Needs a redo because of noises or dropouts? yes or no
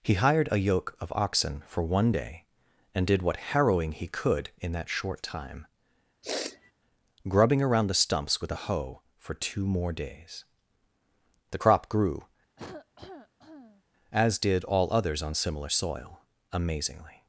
yes